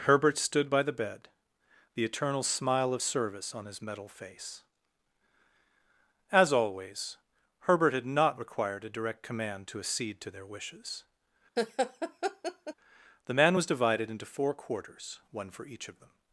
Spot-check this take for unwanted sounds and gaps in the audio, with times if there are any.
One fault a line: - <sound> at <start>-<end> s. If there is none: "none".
- laugh at 11.6-12.7 s